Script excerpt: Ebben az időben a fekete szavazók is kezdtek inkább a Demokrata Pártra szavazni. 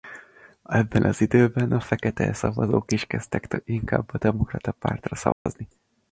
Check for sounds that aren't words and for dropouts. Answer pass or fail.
fail